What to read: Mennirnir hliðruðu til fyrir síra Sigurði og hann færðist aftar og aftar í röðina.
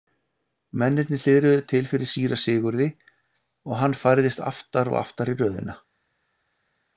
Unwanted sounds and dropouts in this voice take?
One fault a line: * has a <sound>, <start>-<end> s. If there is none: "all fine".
all fine